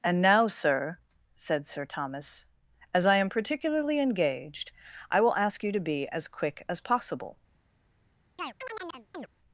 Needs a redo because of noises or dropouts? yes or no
yes